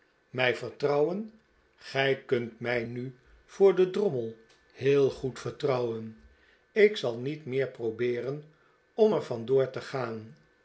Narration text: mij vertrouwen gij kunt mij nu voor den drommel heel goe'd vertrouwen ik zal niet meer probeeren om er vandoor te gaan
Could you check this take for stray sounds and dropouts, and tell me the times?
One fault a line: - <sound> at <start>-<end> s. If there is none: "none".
none